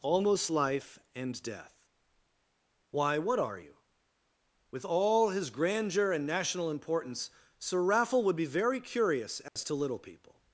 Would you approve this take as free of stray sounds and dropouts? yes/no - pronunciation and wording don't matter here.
no